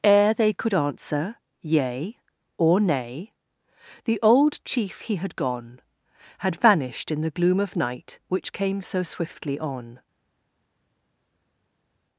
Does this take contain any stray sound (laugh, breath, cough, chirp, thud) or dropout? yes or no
no